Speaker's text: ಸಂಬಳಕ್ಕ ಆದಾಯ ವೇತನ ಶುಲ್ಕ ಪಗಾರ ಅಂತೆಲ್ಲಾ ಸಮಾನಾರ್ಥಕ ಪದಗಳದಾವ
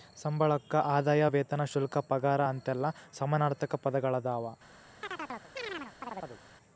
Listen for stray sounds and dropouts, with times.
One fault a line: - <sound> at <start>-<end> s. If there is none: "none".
- chirp at 5.0-6.4 s